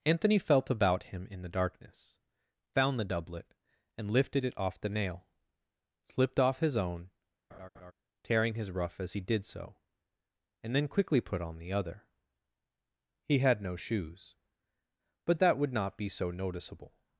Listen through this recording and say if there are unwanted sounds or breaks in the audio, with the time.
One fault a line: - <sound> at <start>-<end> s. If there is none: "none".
- laugh at 7.5-7.9 s